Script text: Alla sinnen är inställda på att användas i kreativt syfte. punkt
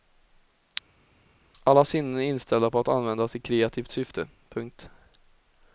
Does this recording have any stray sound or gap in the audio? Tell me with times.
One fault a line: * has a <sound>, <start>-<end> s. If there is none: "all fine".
all fine